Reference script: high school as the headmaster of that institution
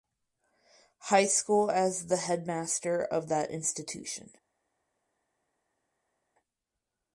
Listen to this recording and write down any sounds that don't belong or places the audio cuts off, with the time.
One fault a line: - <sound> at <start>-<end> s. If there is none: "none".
none